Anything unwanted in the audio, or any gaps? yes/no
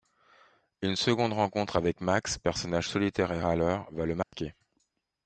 yes